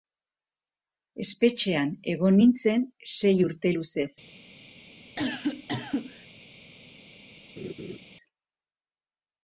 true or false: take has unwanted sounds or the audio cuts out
true